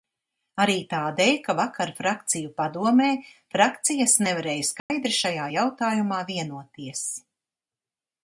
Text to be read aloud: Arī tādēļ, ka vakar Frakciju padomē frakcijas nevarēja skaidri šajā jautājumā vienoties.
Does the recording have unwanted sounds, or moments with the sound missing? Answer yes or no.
yes